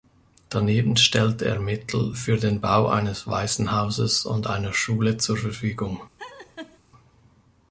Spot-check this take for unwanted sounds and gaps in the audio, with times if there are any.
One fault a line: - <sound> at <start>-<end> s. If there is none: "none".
- laugh at 6.2-6.8 s